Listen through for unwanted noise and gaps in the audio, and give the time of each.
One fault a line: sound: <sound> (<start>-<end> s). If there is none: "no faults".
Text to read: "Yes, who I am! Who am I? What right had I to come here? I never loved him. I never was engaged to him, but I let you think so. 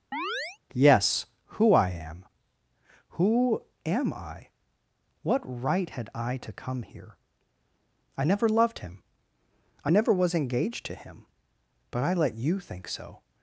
sound: chirp (0.1-0.6 s)